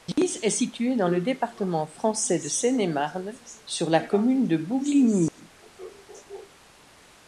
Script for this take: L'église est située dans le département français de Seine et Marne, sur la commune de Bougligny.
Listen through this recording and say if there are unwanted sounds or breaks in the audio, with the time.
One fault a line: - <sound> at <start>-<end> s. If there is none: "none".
- dropout at 5.3-5.4 s